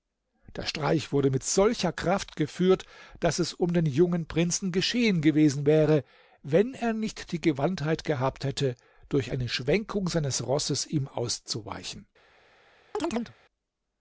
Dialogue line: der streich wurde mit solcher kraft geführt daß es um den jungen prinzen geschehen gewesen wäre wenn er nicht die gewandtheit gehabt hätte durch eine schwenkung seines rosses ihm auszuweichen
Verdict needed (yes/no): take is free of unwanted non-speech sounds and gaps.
no